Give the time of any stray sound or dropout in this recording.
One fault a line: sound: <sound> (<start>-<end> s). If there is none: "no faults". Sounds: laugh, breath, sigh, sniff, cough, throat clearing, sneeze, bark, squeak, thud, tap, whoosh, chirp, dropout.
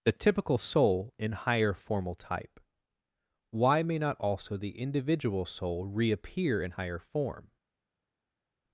no faults